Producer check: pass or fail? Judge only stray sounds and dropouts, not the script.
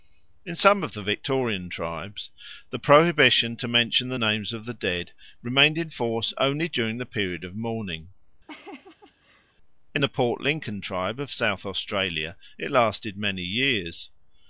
fail